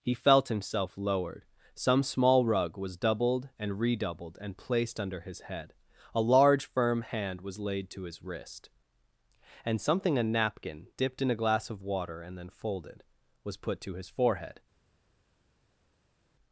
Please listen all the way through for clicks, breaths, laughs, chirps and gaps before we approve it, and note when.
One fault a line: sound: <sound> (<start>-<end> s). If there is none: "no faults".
no faults